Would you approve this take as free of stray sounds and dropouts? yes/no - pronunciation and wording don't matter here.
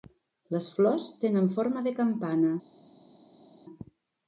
yes